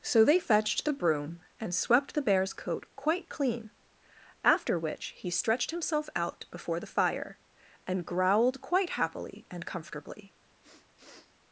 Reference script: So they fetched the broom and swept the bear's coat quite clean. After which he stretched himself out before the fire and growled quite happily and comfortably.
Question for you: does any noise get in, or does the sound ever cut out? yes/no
yes